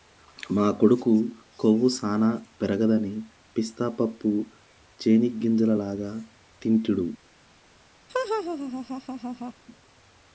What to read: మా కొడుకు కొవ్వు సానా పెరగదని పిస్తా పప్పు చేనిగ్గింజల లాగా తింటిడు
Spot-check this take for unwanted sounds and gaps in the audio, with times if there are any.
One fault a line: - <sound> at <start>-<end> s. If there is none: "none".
- laugh at 8.1-9.5 s